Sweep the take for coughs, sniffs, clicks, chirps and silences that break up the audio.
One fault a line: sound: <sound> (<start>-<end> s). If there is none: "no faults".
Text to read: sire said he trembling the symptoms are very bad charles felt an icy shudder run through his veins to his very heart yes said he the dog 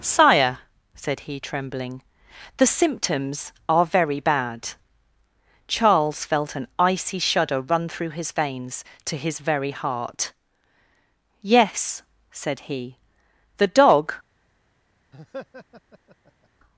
sound: laugh (15.1-16.5 s)